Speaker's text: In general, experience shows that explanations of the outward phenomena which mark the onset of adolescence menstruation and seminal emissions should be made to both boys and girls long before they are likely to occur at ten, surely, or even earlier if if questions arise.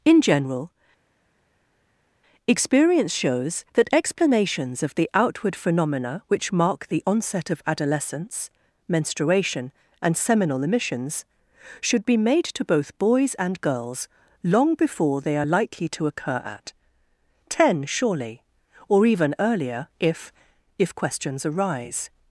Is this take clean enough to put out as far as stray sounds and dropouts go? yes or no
yes